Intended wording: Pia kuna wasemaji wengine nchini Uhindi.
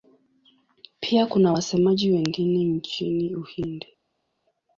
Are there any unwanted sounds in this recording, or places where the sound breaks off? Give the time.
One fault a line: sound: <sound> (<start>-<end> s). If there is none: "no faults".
no faults